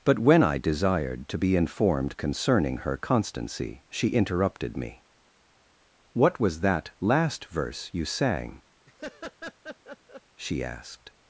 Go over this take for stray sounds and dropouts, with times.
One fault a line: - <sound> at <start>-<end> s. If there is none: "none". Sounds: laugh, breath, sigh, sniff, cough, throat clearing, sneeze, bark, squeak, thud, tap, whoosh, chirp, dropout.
- laugh at 8.9-10.2 s